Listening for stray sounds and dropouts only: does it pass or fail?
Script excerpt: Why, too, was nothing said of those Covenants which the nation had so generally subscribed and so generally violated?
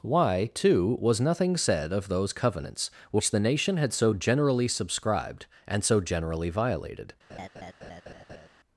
fail